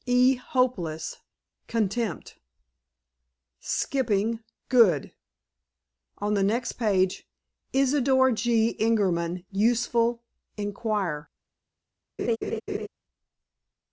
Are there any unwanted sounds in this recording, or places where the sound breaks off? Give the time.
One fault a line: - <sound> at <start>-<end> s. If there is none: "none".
- laugh at 12.2-12.9 s